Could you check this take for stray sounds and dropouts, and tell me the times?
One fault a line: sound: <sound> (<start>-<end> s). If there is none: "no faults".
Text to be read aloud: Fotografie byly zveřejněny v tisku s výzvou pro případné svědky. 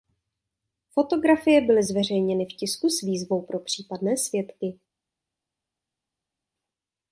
no faults